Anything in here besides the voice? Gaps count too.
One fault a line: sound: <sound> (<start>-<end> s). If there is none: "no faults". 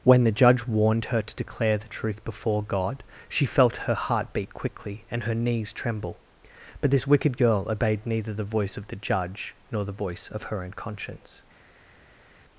no faults